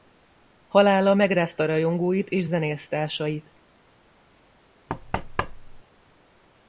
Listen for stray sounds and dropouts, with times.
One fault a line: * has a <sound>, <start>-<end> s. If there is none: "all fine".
* has a thud, 4.9-5.8 s